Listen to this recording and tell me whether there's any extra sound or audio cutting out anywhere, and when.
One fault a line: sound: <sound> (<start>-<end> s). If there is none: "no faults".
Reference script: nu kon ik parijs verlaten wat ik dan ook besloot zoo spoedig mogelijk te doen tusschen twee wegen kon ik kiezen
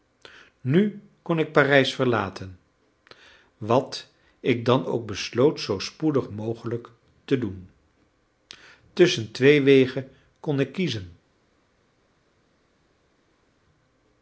no faults